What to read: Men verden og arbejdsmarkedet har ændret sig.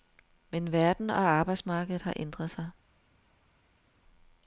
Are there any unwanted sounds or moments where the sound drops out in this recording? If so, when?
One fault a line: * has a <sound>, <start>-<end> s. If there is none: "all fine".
all fine